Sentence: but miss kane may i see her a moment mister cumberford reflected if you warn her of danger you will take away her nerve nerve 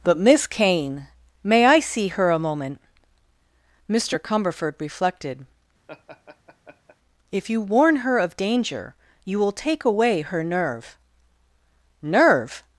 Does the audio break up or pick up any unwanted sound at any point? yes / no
yes